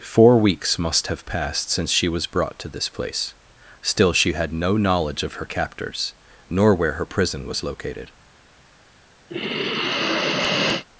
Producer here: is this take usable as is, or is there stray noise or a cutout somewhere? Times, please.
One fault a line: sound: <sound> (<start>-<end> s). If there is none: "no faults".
sound: sigh (9.3-10.9 s)